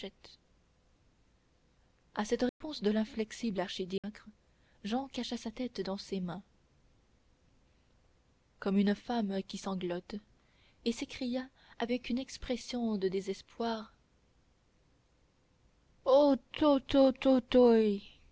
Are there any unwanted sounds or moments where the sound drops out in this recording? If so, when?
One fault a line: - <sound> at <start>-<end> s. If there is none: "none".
- dropout at 2.5-2.6 s
- dropout at 4.0-4.0 s